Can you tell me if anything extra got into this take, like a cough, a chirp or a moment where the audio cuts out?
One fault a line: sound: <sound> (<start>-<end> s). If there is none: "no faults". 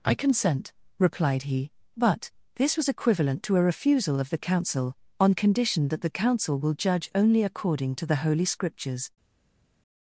no faults